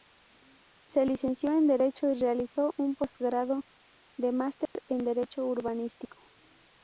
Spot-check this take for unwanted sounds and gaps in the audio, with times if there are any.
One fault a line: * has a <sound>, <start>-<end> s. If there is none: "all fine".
* has a dropout, 4.7-4.8 s